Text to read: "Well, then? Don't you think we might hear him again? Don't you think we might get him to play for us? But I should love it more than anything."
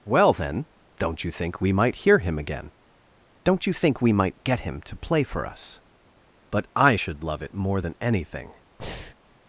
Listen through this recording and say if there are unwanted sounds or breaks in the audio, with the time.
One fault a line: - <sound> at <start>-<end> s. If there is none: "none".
- breath at 8.8-9.1 s